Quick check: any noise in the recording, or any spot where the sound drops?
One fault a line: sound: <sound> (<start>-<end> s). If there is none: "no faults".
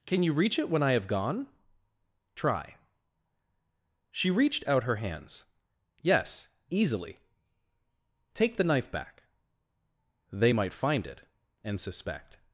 no faults